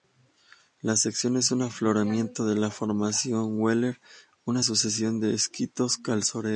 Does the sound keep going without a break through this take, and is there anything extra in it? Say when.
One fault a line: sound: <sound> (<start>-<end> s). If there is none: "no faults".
no faults